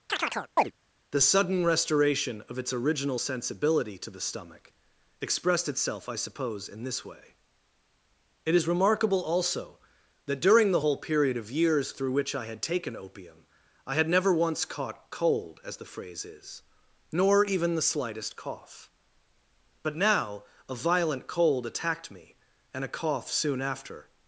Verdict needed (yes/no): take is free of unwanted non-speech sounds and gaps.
no